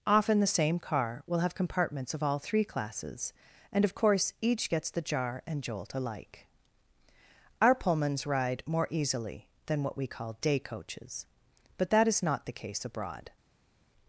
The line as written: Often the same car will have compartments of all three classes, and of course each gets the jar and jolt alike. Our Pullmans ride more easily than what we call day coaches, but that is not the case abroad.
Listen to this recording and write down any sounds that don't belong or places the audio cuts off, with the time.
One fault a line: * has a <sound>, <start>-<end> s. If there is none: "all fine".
all fine